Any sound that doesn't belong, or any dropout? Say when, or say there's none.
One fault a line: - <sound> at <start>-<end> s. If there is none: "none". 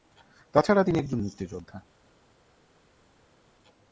none